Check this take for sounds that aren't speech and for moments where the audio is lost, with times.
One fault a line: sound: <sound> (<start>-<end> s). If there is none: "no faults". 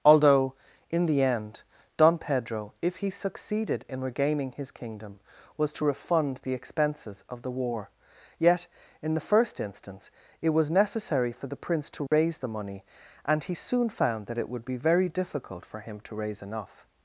sound: dropout (12.1-12.1 s)